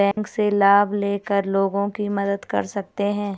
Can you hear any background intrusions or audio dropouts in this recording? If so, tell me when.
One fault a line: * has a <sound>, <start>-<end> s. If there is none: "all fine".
* has a dropout, 0.1-0.2 s